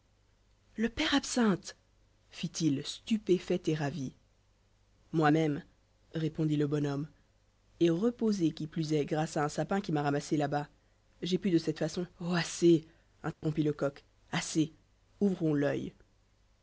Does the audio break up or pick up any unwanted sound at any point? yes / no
yes